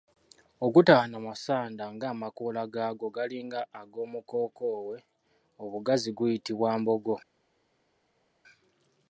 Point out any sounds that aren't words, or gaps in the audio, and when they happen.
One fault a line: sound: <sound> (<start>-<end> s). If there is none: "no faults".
no faults